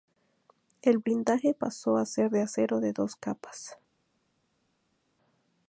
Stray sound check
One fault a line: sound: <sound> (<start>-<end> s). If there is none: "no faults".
no faults